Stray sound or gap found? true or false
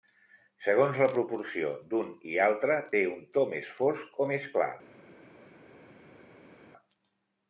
false